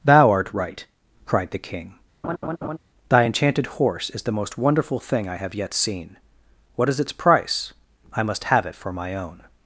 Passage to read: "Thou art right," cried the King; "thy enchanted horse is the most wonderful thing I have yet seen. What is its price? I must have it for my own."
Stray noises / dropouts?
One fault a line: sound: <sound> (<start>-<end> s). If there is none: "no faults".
sound: laugh (2.2-2.8 s)